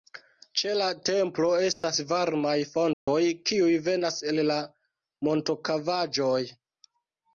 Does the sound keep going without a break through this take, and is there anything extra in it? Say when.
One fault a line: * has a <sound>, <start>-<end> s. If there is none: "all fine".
* has a dropout, 1.7-1.8 s
* has a dropout, 2.9-3.1 s